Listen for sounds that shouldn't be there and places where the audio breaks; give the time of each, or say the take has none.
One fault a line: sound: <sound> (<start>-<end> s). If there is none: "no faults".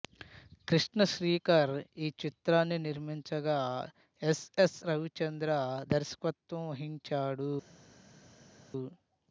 no faults